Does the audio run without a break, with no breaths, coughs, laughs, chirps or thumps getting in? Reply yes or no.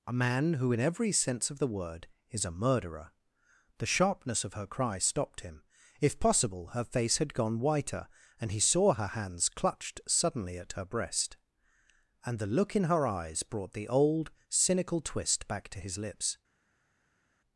yes